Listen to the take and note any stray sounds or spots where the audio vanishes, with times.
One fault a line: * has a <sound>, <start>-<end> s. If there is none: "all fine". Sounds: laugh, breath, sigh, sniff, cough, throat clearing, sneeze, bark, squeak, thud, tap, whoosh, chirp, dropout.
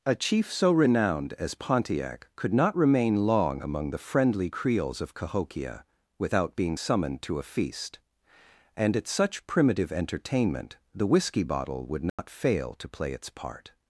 * has a dropout, 12.1-12.2 s